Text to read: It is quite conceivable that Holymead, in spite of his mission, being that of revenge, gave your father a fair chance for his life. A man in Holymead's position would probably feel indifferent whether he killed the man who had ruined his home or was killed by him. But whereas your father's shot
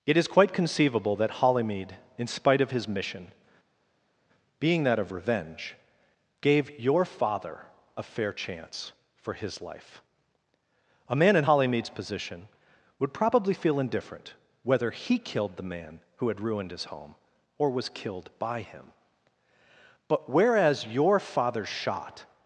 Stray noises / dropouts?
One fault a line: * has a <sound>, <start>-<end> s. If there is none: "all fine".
all fine